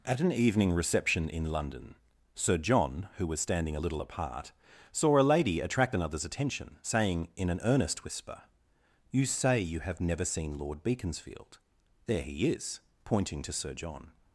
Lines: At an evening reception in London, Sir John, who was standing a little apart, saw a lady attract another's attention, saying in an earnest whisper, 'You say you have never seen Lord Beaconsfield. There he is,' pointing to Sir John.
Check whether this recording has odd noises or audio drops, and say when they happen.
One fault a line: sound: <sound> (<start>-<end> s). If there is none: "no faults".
no faults